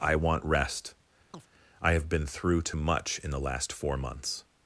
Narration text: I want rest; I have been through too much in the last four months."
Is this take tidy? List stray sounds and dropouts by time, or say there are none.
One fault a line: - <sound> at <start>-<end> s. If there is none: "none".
- chirp at 1.3-1.5 s